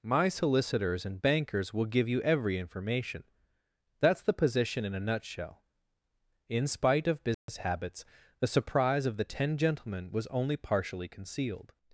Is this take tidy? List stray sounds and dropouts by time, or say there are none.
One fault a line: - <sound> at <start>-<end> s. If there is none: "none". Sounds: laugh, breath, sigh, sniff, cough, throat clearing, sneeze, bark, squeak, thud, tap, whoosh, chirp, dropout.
- dropout at 7.3-7.5 s